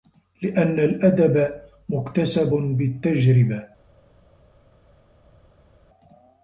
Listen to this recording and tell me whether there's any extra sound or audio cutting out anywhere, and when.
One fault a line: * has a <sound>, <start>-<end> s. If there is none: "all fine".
all fine